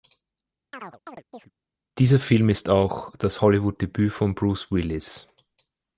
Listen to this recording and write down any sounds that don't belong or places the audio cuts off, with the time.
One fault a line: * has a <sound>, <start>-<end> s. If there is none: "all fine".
* has a chirp, 0.7-1.5 s